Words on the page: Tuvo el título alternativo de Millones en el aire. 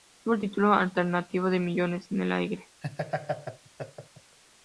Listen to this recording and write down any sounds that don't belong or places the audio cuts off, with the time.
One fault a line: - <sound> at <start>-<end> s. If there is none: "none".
- laugh at 2.8-4.4 s